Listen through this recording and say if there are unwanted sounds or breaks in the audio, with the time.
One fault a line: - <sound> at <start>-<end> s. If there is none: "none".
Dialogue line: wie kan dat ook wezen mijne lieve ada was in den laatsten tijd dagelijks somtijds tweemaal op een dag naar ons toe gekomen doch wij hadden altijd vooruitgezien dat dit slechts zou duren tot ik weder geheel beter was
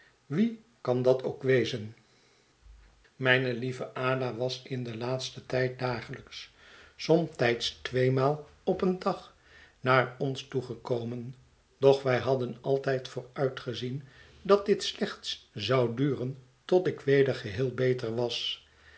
none